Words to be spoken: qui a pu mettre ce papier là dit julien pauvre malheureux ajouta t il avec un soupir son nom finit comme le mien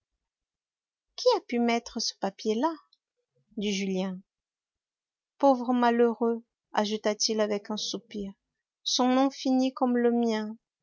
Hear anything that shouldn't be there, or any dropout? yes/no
no